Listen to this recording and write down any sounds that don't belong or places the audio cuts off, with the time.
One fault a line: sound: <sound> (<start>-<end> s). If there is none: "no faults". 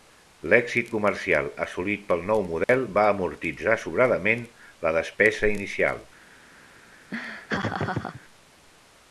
sound: dropout (2.6-2.7 s)
sound: laugh (7.1-8.2 s)